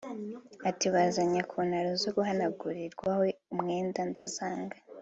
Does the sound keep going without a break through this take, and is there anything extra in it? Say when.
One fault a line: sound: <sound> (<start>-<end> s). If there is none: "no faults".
sound: dropout (4.1-4.3 s)